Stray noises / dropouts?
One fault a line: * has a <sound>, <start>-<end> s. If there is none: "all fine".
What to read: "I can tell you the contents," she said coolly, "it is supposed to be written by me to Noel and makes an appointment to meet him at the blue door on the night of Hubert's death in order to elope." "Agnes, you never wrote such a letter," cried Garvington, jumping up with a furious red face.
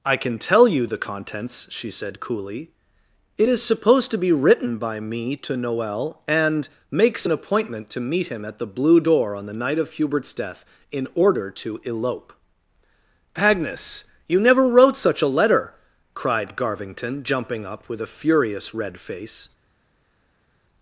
all fine